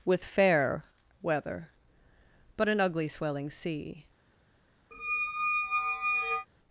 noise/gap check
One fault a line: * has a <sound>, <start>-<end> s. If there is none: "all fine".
* has a squeak, 4.9-6.5 s